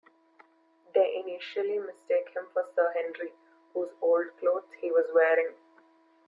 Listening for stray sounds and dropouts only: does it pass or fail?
pass